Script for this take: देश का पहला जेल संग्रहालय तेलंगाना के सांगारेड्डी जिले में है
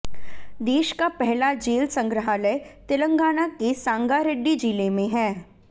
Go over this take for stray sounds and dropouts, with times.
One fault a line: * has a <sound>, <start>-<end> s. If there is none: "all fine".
all fine